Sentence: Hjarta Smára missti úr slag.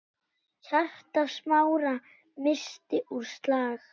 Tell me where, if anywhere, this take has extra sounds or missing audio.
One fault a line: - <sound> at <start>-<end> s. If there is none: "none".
none